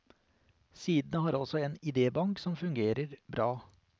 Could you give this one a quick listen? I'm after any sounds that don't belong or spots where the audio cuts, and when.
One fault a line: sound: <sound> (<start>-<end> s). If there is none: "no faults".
no faults